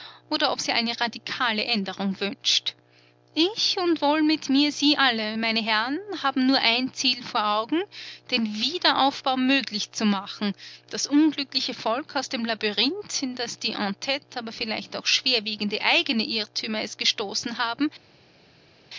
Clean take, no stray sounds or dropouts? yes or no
yes